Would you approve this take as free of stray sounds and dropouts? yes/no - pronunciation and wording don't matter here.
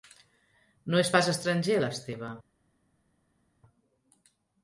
yes